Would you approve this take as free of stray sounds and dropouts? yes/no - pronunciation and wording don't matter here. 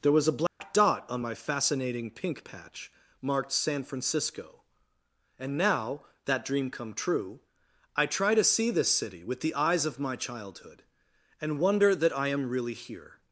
no